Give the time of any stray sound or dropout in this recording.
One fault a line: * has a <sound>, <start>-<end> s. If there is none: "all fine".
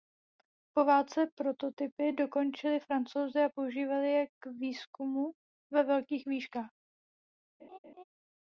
* has a laugh, 7.6-8.0 s